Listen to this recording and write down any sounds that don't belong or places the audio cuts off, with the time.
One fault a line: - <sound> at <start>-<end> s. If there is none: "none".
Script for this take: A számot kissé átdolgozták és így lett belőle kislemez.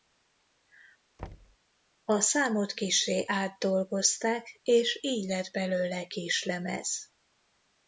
- thud at 1.2-1.6 s